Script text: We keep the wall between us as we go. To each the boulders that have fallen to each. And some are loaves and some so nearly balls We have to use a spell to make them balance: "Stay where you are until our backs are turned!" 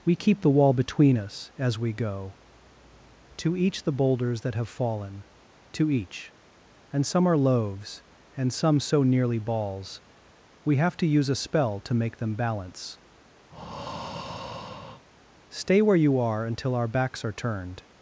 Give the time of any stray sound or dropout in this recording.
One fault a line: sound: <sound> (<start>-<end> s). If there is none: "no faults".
sound: breath (13.5-15.0 s)